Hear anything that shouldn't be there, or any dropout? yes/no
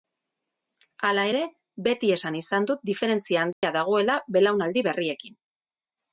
yes